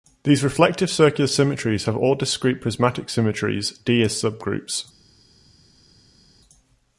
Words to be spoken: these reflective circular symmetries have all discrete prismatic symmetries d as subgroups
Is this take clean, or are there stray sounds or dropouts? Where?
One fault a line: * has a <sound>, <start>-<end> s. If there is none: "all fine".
all fine